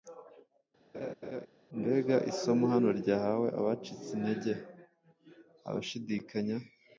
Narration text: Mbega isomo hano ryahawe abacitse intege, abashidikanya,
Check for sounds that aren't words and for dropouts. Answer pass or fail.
fail